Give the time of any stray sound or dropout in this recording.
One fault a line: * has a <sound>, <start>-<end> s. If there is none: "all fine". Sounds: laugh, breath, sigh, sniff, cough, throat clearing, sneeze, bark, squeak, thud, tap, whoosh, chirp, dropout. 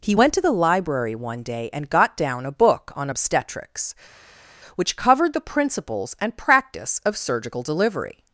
all fine